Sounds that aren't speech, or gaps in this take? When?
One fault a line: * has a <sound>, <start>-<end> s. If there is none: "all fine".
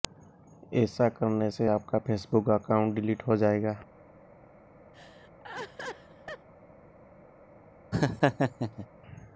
* has a laugh, 4.9-6.5 s
* has a laugh, 7.9-8.9 s